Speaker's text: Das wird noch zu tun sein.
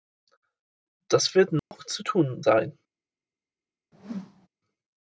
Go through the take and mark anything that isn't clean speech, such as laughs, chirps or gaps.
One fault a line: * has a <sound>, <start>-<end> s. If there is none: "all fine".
* has a dropout, 1.6-1.7 s
* has a whoosh, 3.9-4.5 s